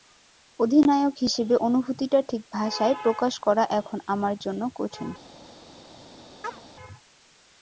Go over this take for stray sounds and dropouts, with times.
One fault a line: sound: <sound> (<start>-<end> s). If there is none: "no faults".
sound: chirp (6.4-6.6 s)